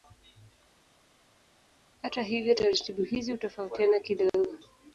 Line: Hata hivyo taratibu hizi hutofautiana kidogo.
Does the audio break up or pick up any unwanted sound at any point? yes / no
no